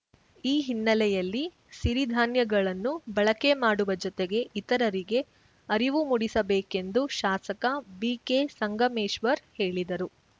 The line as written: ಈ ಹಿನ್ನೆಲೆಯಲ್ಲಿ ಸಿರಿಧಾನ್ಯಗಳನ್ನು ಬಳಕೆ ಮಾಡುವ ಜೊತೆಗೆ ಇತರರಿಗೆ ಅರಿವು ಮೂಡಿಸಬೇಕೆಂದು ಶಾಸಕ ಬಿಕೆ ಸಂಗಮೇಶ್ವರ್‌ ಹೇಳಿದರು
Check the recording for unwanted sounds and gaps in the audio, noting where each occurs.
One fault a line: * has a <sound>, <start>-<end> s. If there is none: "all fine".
all fine